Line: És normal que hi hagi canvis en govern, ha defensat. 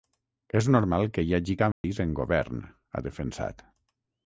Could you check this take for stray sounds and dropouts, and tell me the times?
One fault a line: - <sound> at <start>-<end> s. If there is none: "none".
- dropout at 1.7-1.8 s